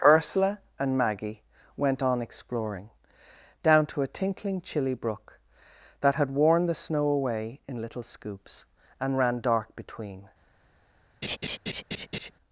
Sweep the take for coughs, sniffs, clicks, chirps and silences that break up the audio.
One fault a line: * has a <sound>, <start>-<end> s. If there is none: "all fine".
* has a laugh, 11.2-12.3 s